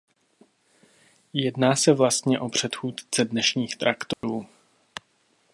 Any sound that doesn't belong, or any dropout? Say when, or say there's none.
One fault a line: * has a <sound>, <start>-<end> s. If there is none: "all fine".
* has a dropout, 4.1-4.2 s